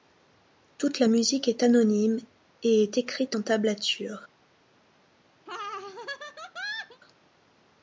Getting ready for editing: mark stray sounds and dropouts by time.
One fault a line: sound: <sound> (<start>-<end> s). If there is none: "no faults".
sound: laugh (5.5-7.0 s)